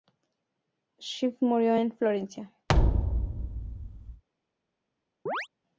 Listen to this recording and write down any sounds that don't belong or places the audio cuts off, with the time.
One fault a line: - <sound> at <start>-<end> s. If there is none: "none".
- thud at 2.7-4.2 s
- chirp at 5.3-5.5 s